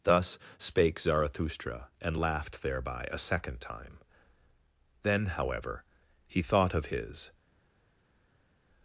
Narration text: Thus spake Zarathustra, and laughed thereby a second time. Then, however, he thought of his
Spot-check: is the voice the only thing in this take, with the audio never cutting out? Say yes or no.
yes